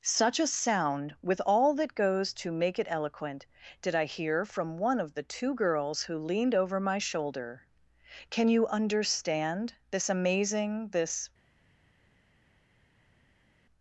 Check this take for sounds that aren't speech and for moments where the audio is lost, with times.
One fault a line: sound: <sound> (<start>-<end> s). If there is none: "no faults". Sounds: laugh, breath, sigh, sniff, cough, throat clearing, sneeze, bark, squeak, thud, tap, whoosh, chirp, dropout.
no faults